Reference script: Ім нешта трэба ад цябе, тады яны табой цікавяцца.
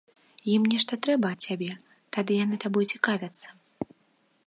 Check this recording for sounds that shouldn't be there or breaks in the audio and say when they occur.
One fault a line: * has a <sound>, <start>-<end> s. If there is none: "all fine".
all fine